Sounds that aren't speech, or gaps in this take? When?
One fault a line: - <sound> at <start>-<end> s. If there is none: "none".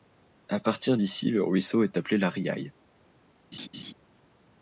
- laugh at 3.5-3.9 s